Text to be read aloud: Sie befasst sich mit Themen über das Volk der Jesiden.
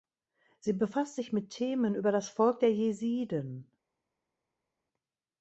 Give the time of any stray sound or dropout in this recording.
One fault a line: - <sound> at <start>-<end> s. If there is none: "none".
none